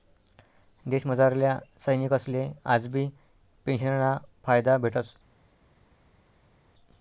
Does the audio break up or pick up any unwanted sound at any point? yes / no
no